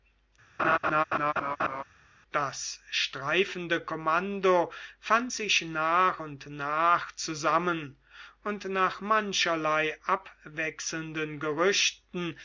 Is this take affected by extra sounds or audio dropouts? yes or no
yes